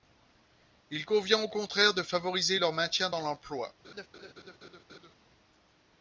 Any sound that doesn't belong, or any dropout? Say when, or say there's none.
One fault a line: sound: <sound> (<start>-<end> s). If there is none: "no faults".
sound: laugh (3.8-5.2 s)